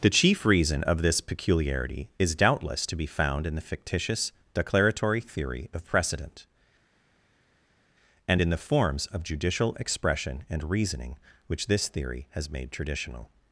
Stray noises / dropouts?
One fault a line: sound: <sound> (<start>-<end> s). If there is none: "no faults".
no faults